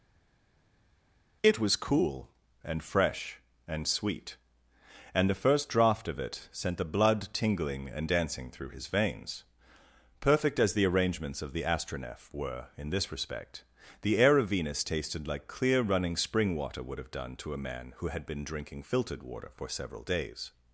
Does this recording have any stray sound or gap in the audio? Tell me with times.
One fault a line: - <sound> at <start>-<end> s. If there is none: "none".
none